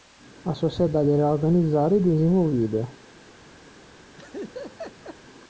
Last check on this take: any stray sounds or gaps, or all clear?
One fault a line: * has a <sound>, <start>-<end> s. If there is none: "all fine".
* has a laugh, 4.2-5.2 s